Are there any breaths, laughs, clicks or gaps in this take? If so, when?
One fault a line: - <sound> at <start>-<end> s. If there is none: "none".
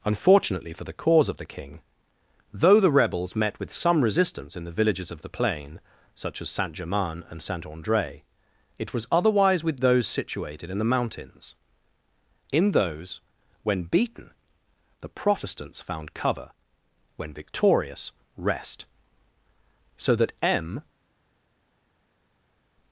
none